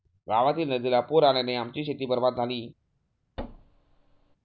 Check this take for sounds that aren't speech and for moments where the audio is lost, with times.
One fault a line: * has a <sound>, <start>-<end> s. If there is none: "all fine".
* has a thud, 3.4-4.4 s